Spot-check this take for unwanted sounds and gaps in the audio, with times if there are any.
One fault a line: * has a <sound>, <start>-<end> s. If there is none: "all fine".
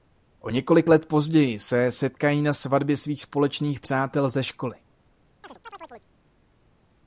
* has a chirp, 5.4-6.1 s